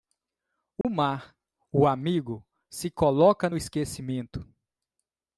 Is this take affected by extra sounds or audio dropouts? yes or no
yes